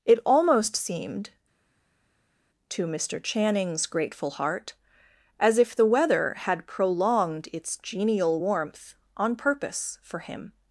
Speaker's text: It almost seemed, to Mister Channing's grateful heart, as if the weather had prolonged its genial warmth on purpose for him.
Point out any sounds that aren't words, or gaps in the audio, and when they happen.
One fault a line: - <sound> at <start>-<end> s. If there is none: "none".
none